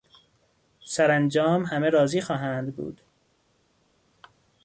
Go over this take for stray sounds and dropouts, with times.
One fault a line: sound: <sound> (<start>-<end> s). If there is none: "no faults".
no faults